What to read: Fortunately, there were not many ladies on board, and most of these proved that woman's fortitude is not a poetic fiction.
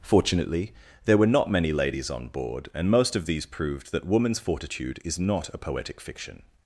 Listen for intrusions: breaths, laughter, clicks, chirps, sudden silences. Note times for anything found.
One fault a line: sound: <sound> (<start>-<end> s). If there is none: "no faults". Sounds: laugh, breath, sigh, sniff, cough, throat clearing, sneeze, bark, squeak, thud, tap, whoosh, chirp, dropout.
no faults